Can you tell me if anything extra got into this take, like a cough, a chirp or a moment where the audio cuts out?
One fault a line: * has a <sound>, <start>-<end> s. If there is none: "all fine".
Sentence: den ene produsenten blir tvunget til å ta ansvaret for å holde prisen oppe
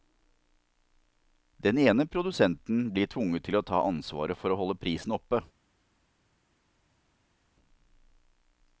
all fine